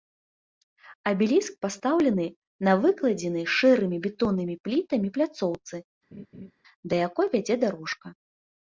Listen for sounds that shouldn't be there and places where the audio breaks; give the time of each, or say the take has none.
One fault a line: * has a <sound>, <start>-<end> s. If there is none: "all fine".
* has a laugh, 6.1-6.5 s